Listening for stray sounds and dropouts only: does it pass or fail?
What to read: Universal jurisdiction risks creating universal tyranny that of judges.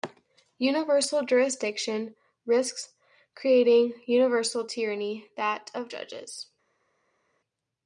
pass